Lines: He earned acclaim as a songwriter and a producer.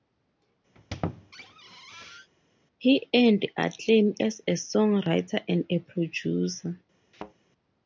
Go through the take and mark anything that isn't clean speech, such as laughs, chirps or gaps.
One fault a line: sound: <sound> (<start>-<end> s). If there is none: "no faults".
sound: squeak (0.7-2.3 s)
sound: thud (7.1-7.3 s)